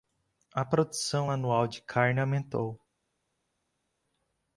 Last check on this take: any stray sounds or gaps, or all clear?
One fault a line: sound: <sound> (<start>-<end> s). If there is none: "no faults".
no faults